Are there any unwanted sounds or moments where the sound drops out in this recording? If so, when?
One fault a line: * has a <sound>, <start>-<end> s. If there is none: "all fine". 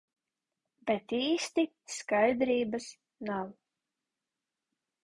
all fine